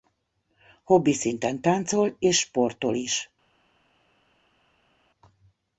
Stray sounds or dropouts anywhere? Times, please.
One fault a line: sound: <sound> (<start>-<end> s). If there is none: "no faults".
no faults